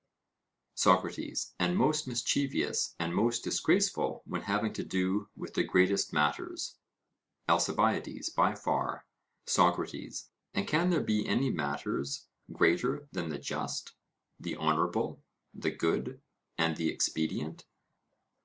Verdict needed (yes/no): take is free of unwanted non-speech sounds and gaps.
yes